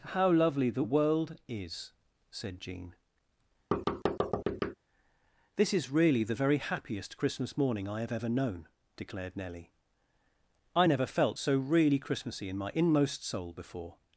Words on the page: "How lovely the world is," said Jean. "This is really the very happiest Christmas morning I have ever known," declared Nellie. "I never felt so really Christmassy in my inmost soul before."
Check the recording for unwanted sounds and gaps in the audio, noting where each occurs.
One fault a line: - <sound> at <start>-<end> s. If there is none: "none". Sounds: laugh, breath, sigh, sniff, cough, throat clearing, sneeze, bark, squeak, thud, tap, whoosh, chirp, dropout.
- thud at 3.7-4.7 s